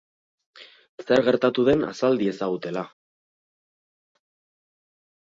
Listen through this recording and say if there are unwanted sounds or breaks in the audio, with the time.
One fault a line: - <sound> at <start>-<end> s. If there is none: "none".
none